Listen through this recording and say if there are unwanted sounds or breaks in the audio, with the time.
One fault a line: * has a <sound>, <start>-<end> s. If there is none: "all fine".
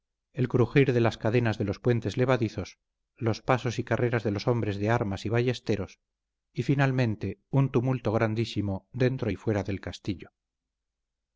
all fine